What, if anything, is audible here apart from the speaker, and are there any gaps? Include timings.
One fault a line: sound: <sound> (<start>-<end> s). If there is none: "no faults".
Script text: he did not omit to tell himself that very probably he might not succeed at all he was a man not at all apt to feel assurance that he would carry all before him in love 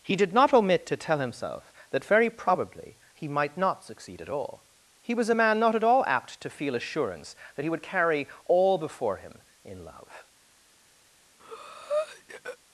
sound: breath (11.4-12.6 s)